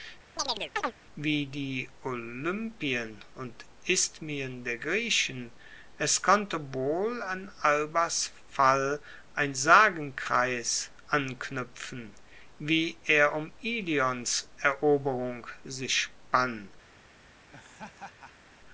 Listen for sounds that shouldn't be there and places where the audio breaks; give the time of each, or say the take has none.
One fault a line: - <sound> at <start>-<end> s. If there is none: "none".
- chirp at 0.4-0.9 s
- laugh at 17.5-18.5 s